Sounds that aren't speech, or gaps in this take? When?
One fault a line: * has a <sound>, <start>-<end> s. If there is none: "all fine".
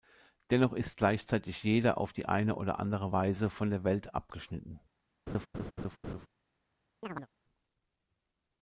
* has a laugh, 5.3-6.3 s
* has a chirp, 7.0-7.3 s